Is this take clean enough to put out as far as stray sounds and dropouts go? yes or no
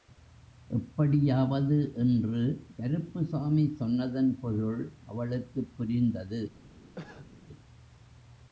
no